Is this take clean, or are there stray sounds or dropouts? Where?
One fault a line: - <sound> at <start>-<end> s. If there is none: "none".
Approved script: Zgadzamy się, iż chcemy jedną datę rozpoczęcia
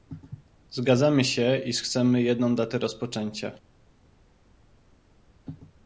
none